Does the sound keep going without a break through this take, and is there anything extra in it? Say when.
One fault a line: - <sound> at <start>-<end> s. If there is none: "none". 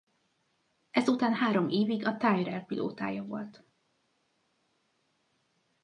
none